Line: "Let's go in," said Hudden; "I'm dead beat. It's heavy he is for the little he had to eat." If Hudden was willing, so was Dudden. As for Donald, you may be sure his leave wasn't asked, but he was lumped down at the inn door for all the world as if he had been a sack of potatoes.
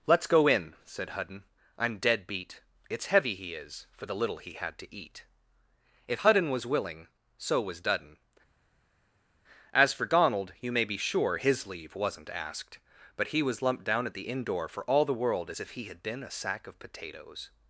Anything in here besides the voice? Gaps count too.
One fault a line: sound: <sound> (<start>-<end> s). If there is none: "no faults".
no faults